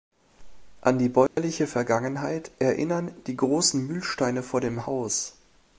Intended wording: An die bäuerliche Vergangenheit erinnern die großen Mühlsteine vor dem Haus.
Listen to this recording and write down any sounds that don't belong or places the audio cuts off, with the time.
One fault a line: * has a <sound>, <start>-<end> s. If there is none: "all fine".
* has a dropout, 1.3-1.4 s